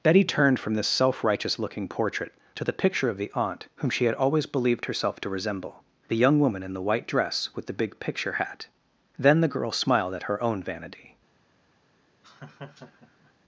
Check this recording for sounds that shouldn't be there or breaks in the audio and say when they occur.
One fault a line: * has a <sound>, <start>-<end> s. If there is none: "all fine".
* has a laugh, 12.2-13.3 s